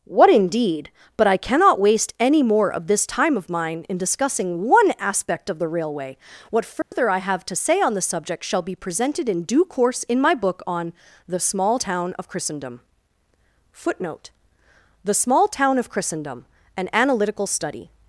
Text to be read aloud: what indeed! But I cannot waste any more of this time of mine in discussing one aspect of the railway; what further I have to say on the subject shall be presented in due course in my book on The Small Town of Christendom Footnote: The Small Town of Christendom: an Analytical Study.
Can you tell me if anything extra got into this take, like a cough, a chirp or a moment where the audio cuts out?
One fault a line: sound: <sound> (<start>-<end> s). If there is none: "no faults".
sound: dropout (6.8-6.9 s)